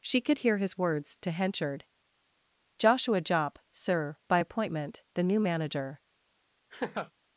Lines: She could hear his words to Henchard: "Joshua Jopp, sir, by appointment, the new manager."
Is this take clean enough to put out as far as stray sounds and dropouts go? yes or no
no